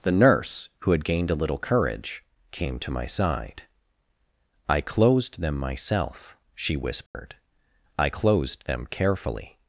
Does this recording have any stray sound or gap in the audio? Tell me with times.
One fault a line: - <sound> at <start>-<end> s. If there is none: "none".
- dropout at 7.1-7.2 s